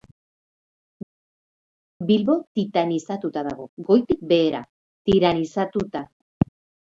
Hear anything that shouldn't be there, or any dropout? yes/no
no